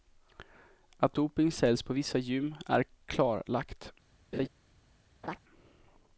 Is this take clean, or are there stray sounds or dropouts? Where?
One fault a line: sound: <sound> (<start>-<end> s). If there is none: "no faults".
sound: laugh (4.3-4.5 s)
sound: laugh (5.2-5.4 s)